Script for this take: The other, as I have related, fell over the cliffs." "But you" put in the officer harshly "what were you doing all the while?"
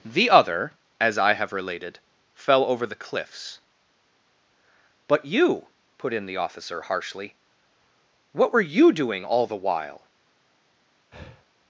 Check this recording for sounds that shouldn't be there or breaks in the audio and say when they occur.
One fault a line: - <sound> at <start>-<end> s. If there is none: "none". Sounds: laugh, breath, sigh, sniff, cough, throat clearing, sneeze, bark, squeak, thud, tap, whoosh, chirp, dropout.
- breath at 11.1-11.4 s